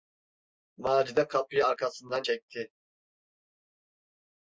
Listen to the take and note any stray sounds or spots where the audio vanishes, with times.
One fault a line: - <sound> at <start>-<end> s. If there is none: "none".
none